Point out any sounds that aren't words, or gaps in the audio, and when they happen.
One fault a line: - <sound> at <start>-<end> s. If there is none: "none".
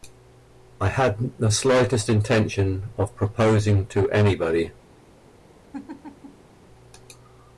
- laugh at 5.7-6.5 s